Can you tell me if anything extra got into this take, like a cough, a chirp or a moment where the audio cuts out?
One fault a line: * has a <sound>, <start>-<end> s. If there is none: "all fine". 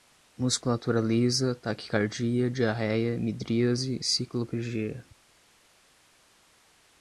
all fine